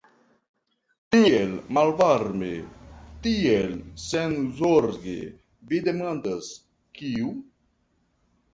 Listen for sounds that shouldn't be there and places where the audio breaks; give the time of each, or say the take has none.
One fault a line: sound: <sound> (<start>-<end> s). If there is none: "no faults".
no faults